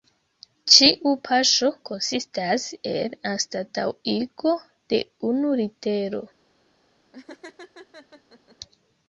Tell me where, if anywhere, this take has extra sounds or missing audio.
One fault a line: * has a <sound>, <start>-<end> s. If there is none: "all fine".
* has a laugh, 7.1-8.6 s